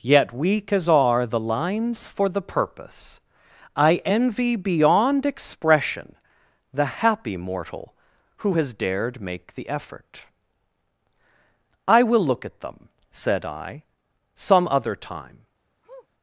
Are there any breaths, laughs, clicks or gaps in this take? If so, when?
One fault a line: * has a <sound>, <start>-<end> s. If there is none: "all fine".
* has a sniff, 15.8-16.1 s